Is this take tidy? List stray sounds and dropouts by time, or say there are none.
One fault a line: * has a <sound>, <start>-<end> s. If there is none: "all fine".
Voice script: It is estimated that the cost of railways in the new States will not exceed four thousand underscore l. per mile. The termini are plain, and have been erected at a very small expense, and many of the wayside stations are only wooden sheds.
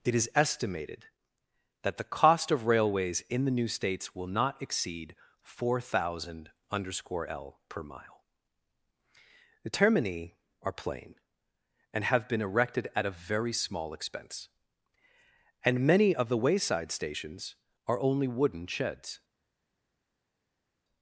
all fine